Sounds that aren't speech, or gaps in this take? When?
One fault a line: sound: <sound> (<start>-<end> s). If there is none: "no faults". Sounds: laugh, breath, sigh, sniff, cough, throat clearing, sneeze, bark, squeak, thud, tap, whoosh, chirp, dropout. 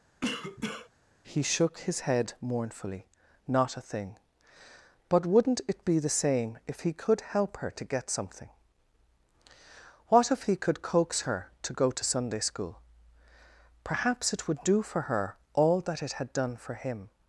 sound: cough (0.2-0.9 s)